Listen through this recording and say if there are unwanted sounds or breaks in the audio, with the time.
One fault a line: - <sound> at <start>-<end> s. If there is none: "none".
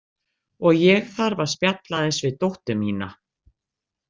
none